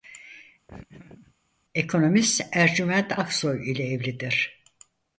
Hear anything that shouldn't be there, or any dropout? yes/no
yes